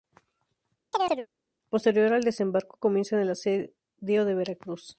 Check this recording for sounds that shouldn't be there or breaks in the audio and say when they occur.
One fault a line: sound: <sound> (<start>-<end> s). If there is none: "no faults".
sound: chirp (0.9-1.3 s)